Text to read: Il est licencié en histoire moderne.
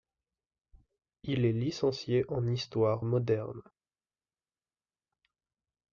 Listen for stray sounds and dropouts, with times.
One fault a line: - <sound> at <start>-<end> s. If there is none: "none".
none